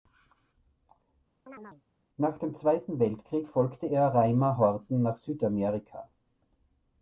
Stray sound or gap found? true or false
true